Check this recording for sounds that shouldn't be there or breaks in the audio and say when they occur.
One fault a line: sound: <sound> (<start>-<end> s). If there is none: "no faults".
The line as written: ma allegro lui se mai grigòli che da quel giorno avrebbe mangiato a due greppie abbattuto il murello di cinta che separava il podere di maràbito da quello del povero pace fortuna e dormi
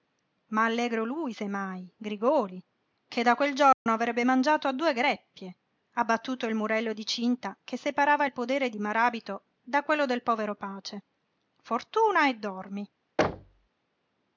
sound: dropout (3.7-3.9 s)
sound: thud (13.2-13.7 s)